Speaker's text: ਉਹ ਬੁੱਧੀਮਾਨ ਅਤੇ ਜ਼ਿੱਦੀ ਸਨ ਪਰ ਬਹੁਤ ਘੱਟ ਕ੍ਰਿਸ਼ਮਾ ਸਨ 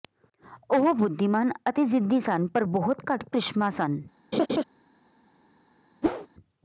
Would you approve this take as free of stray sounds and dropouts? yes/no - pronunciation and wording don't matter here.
no